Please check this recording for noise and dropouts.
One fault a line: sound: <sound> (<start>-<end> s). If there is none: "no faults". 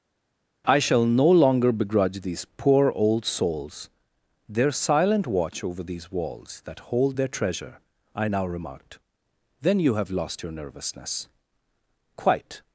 no faults